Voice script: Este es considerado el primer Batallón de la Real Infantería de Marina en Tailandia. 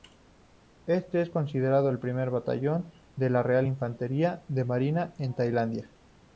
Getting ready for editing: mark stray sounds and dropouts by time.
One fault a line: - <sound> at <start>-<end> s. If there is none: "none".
none